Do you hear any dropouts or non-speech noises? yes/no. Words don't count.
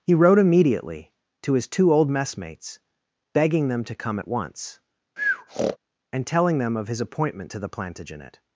yes